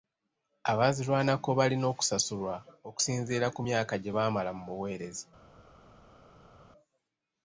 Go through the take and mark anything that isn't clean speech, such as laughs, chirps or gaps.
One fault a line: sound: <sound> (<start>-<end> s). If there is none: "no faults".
no faults